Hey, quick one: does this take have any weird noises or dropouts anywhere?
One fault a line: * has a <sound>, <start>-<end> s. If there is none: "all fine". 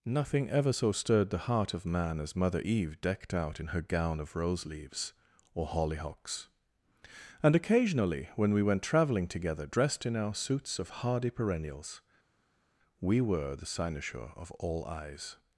all fine